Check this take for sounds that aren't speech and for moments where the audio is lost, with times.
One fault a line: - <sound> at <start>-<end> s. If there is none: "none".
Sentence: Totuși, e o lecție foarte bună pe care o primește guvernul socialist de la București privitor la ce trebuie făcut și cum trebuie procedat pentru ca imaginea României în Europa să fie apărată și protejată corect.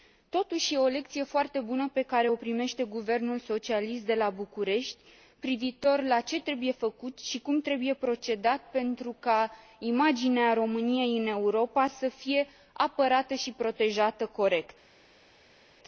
none